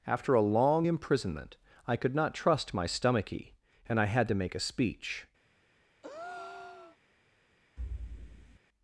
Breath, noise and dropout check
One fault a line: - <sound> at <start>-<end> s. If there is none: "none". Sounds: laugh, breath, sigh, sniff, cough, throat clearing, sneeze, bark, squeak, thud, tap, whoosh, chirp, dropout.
- breath at 6.0-7.0 s
- thud at 7.8-8.6 s